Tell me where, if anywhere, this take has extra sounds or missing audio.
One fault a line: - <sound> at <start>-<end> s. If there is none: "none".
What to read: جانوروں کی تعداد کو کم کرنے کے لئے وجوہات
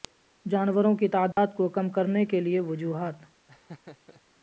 - dropout at 1.3-1.4 s
- laugh at 3.5-4.2 s